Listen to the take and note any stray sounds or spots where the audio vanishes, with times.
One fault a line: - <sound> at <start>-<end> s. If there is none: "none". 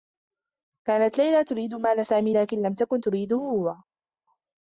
none